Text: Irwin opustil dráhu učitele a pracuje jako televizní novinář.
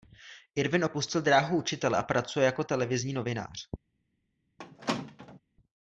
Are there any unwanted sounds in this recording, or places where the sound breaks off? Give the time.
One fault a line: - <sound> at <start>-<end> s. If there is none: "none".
- squeak at 4.6-5.4 s